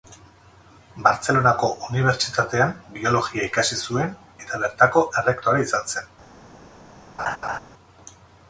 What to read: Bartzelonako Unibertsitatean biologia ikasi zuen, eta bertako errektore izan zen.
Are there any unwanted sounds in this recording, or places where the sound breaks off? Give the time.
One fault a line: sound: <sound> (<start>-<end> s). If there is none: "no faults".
sound: laugh (7.2-7.6 s)